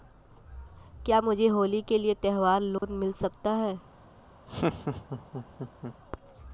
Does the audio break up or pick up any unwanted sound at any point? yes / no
yes